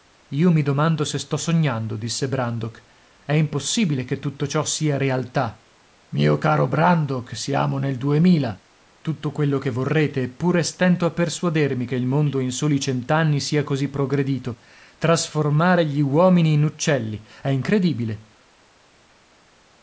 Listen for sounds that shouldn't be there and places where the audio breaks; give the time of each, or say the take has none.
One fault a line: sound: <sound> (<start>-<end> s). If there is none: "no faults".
no faults